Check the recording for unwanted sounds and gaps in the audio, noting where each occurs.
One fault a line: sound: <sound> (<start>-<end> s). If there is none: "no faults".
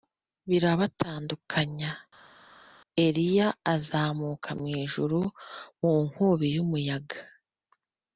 no faults